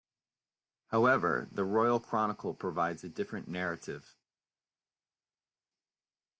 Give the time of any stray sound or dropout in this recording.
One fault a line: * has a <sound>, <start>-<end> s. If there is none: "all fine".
all fine